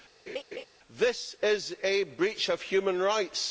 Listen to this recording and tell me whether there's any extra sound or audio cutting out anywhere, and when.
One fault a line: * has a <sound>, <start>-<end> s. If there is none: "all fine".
* has a laugh, 0.3-0.6 s